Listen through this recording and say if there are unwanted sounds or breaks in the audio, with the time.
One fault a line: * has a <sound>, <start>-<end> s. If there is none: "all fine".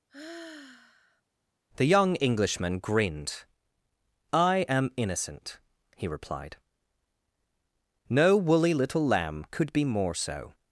* has a sigh, 0.1-1.2 s